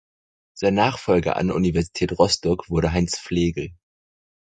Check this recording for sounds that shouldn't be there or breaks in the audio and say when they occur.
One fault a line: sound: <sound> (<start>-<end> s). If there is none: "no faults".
no faults